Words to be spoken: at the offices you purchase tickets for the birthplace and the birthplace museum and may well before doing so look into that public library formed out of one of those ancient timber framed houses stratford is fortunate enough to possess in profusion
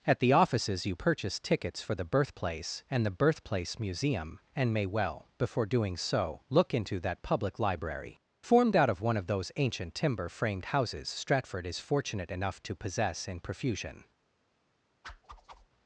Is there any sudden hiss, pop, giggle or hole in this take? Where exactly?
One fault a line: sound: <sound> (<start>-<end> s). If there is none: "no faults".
sound: whoosh (15.0-15.7 s)